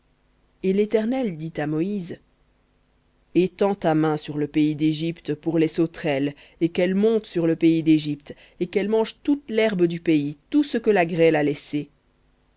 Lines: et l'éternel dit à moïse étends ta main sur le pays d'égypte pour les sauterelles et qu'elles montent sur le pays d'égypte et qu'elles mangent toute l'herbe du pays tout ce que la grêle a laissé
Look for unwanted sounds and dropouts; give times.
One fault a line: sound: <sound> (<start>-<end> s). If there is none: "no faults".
no faults